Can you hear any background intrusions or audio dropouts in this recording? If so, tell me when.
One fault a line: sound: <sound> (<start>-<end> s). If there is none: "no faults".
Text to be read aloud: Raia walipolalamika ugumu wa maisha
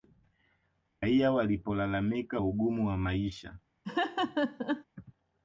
sound: laugh (3.8-4.8 s)